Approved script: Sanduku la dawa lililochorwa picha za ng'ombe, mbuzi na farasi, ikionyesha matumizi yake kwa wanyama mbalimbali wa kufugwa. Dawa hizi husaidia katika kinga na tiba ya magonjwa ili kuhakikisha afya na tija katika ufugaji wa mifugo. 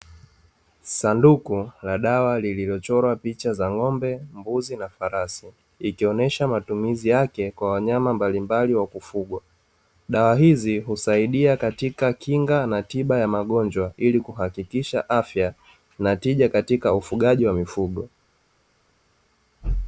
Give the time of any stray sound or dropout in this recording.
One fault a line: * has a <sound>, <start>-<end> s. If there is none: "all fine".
all fine